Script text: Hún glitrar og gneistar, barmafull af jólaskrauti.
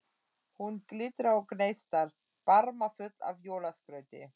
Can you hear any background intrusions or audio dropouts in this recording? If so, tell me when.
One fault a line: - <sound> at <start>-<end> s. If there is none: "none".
none